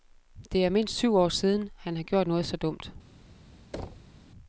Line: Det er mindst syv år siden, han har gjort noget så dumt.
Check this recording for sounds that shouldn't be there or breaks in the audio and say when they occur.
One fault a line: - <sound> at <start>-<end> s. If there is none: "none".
- thud at 3.7-4.2 s